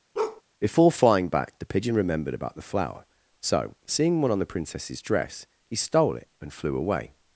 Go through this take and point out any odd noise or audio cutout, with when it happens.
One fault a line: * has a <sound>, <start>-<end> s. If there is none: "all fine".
* has a bark, 0.1-0.4 s